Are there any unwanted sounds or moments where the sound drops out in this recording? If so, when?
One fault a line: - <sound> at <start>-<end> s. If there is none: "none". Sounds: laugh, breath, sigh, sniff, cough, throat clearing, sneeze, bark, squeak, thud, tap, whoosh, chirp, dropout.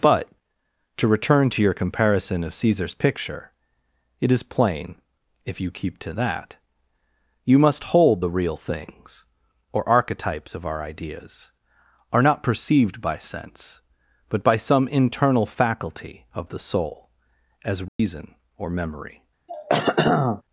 - dropout at 17.9-18.0 s
- throat clearing at 19.5-20.4 s